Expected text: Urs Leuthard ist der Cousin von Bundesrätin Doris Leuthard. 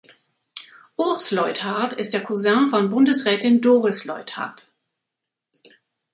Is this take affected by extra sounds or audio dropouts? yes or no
no